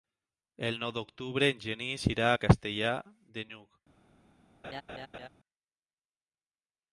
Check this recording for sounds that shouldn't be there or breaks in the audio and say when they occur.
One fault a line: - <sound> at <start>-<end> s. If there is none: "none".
- laugh at 4.6-5.3 s